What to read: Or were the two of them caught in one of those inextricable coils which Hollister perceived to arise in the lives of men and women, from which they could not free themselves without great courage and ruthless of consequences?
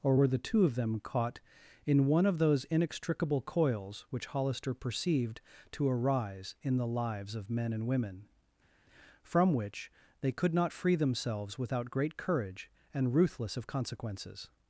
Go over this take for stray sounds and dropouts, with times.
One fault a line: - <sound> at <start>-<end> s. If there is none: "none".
none